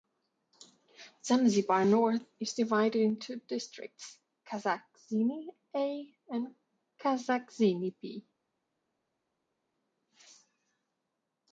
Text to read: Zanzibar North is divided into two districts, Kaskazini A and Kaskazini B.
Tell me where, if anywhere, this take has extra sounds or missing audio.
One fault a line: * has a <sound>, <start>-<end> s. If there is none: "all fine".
all fine